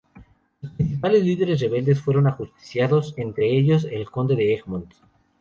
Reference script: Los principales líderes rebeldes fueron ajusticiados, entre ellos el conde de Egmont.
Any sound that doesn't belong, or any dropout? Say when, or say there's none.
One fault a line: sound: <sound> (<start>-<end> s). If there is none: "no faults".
no faults